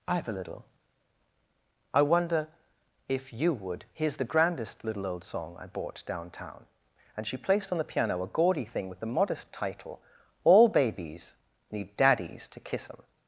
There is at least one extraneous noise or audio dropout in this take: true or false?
false